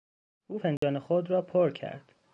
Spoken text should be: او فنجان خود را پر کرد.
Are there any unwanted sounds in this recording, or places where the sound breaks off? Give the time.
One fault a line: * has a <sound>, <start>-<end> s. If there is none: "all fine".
* has a dropout, 0.8-0.8 s